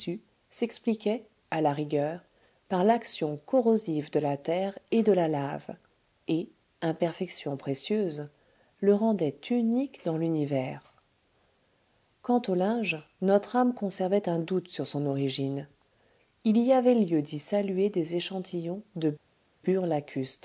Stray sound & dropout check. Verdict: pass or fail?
pass